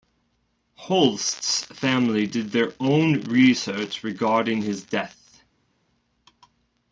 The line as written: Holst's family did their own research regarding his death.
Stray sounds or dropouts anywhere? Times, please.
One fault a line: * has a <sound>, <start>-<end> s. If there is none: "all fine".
all fine